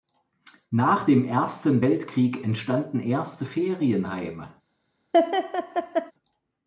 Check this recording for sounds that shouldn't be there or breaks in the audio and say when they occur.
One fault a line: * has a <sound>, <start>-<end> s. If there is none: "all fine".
* has a laugh, 5.1-6.1 s